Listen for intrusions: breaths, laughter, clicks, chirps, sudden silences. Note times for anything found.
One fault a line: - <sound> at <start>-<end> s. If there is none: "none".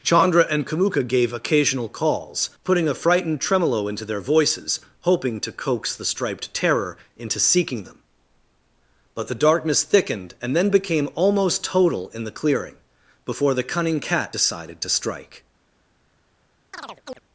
- chirp at 16.7-17.2 s